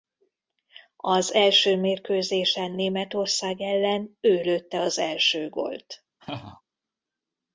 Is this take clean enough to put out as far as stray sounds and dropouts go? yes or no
no